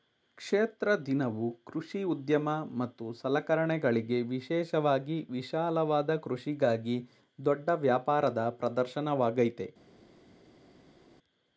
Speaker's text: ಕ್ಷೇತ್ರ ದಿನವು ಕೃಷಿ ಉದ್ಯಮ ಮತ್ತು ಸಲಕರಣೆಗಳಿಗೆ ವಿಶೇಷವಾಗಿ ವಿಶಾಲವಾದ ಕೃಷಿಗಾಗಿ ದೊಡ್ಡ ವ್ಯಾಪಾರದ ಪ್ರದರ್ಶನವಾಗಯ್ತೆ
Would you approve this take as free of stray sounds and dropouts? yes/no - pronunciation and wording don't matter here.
yes